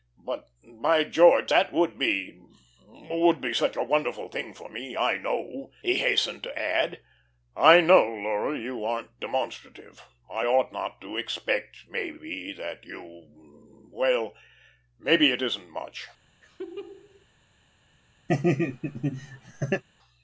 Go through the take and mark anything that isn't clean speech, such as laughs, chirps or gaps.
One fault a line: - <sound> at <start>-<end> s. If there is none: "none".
- laugh at 16.4-17.3 s
- laugh at 18.3-19.8 s